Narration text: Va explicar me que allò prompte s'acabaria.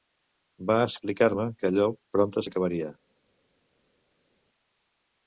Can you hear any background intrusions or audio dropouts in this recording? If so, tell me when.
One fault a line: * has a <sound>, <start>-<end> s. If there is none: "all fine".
all fine